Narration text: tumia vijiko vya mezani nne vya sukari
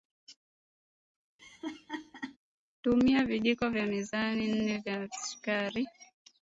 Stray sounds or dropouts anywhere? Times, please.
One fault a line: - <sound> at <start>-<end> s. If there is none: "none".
- laugh at 1.4-2.4 s